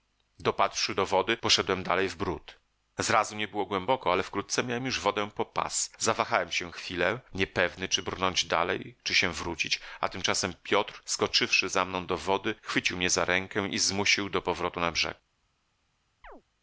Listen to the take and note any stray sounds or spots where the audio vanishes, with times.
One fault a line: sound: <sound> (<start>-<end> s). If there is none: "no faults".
sound: chirp (16.2-16.4 s)